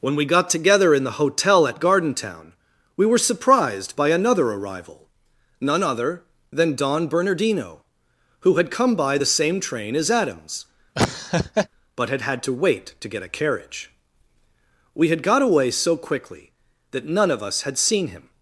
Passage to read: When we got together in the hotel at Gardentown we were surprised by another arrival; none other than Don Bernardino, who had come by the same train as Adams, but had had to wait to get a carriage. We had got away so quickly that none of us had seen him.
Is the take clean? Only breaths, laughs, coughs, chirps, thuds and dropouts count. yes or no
no